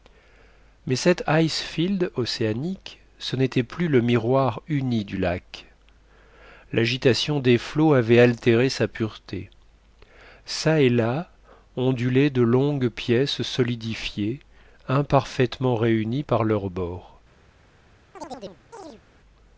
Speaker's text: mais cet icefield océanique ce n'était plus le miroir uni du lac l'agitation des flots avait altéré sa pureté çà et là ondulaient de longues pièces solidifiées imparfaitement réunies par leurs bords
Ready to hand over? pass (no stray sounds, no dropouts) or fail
fail